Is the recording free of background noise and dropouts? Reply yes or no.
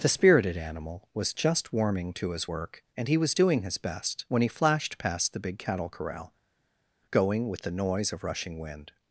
yes